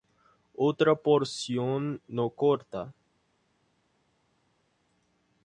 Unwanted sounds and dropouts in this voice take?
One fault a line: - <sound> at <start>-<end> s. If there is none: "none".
none